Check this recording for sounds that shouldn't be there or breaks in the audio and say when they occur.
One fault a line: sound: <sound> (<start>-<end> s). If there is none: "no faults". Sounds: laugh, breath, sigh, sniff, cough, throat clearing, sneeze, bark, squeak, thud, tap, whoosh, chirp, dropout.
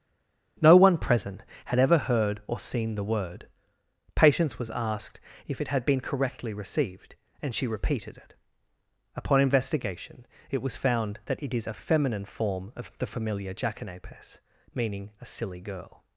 no faults